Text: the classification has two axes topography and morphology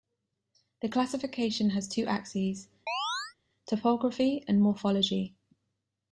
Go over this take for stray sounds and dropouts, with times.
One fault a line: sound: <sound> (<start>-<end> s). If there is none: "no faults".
sound: chirp (2.9-3.4 s)